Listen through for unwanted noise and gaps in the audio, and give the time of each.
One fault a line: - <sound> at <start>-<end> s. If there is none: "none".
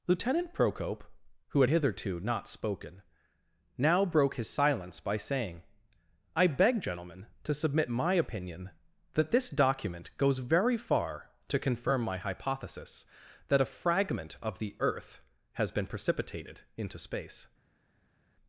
none